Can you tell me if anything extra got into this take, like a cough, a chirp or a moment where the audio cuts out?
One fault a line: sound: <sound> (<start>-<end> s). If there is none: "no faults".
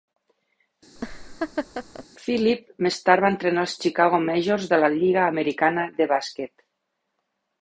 sound: laugh (1.0-2.1 s)